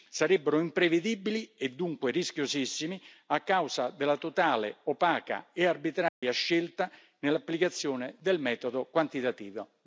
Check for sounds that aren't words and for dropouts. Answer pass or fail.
fail